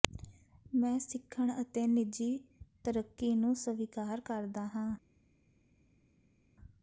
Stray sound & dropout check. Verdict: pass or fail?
pass